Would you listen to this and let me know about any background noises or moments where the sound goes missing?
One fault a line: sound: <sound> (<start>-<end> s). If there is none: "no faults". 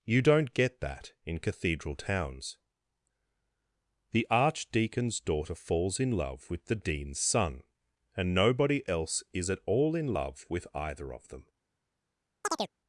sound: chirp (12.4-12.7 s)